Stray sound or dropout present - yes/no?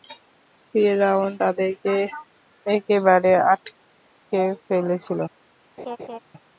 yes